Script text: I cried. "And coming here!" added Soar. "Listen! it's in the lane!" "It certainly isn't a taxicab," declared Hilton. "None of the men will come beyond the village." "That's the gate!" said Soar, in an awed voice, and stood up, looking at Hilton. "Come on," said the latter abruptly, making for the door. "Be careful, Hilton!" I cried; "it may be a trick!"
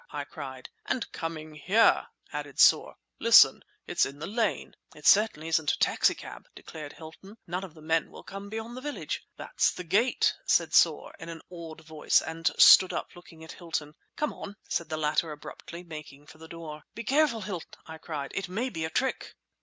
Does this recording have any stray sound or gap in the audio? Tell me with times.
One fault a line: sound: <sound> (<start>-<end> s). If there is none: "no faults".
no faults